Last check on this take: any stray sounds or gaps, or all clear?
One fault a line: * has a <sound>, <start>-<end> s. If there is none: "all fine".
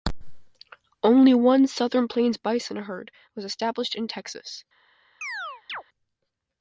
* has a chirp, 5.2-5.8 s